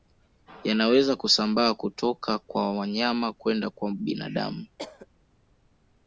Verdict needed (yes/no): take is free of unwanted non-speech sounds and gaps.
no